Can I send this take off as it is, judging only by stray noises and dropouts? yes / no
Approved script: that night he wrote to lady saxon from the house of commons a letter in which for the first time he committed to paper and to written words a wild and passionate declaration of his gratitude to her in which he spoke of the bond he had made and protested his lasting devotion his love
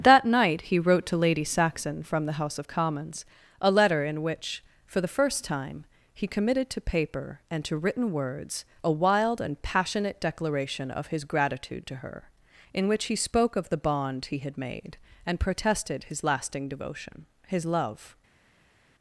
yes